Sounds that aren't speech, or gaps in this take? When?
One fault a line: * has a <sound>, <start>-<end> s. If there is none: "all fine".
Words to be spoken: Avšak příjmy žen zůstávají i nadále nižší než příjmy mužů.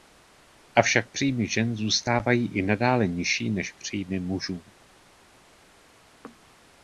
all fine